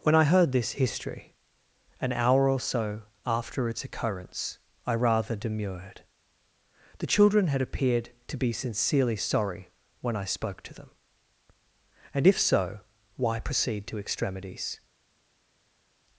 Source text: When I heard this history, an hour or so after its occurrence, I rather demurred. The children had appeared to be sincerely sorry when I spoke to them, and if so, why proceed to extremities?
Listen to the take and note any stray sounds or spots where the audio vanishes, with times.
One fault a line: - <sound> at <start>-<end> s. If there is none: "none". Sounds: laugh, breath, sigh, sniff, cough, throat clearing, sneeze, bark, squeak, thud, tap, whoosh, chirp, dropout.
none